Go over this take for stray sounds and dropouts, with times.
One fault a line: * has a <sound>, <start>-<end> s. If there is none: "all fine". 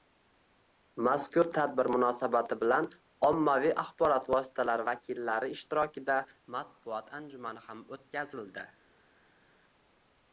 all fine